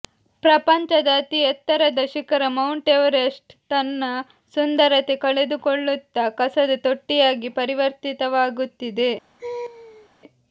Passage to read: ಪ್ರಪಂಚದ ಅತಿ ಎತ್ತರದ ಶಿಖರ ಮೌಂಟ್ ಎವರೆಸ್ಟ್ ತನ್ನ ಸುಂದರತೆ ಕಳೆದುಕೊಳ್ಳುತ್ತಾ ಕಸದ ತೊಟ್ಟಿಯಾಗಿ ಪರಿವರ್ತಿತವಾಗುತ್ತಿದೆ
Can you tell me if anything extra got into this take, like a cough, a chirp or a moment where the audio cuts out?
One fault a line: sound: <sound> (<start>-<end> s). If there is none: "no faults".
sound: laugh (9.4-10.1 s)